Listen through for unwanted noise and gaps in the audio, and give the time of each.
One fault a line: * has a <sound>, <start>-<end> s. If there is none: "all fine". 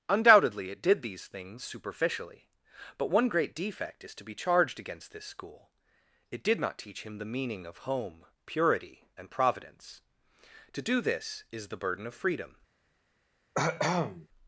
* has a cough, 13.5-14.3 s